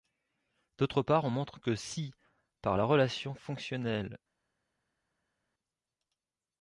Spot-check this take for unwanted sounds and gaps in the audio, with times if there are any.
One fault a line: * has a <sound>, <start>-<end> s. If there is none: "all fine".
all fine